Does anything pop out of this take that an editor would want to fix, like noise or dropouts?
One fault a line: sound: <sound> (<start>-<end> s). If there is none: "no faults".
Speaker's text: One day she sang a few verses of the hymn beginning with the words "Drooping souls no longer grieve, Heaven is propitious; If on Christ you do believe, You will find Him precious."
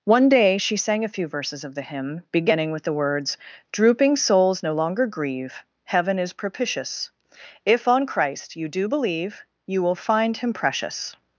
no faults